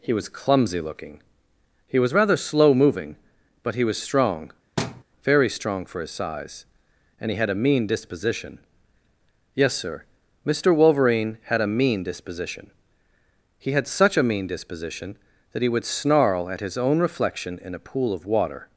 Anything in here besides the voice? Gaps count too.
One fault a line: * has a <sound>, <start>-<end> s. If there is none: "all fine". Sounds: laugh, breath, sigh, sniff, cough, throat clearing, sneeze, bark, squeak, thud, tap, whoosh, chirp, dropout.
* has a thud, 4.8-5.0 s